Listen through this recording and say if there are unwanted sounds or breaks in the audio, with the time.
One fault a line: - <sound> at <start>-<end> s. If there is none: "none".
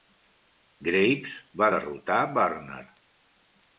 none